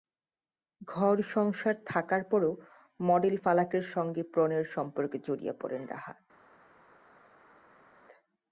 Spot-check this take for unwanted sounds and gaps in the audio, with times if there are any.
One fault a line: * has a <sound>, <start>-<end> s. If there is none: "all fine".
all fine